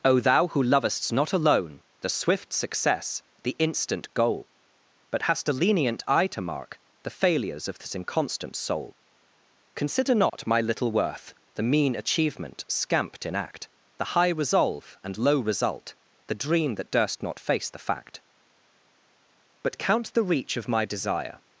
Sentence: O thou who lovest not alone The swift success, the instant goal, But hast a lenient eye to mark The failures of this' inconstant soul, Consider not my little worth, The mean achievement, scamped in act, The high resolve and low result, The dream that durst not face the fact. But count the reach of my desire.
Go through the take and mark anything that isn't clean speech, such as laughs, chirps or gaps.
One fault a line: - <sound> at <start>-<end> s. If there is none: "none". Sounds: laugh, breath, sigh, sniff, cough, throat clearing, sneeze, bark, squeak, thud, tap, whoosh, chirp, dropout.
- dropout at 10.3-10.3 s